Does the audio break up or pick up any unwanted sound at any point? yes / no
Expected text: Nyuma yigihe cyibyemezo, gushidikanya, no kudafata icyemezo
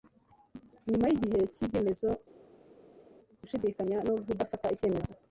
no